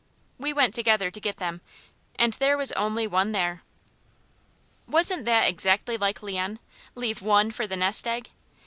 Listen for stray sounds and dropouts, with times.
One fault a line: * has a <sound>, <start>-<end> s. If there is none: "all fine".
all fine